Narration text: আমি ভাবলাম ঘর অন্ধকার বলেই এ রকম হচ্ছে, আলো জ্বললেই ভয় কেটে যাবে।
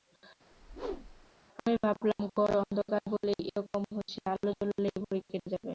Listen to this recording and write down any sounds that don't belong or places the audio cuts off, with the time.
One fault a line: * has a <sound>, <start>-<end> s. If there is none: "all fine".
* has a whoosh, 0.5-1.3 s